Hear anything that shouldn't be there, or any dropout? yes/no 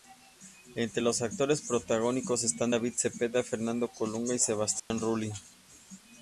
yes